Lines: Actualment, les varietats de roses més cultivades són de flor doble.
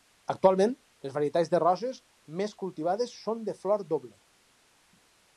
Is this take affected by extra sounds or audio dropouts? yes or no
no